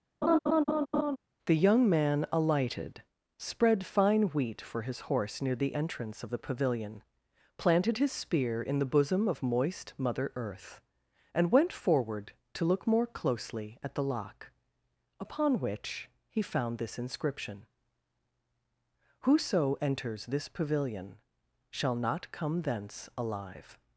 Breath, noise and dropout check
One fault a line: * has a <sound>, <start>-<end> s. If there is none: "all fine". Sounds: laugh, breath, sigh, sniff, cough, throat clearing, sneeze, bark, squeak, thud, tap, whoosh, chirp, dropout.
* has a laugh, 0.2-1.2 s